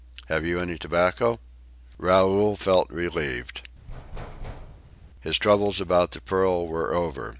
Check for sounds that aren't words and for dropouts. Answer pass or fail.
fail